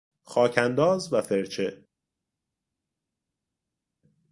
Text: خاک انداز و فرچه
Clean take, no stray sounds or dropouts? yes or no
yes